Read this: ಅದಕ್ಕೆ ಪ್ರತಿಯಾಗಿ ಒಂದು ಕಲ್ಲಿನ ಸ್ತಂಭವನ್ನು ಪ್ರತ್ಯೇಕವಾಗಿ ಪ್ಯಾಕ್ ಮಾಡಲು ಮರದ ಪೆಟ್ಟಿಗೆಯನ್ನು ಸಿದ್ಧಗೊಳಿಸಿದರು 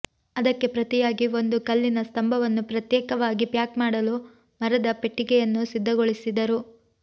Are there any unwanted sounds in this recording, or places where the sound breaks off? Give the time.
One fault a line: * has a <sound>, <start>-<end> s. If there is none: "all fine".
all fine